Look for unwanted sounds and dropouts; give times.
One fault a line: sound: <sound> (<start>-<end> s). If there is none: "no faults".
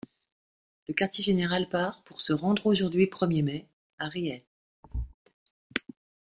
sound: thud (4.8-5.1 s)